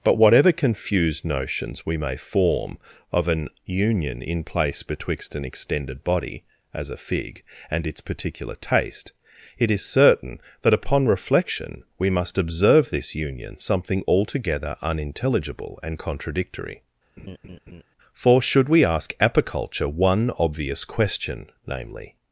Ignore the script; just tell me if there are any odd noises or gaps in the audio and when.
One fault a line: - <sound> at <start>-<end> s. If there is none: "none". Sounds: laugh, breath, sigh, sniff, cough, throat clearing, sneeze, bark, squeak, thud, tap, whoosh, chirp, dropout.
- laugh at 17.2-17.8 s